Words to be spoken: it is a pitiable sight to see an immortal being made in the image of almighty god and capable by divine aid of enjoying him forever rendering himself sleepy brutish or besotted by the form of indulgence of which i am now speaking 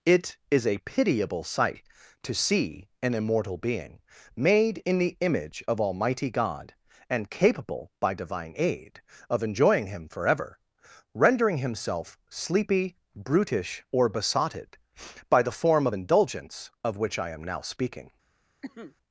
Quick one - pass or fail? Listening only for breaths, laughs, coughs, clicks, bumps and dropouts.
fail